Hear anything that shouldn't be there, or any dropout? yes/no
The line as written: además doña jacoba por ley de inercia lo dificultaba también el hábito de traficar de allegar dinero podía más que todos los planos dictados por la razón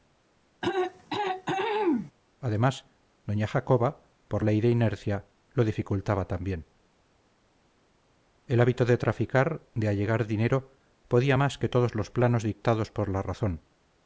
yes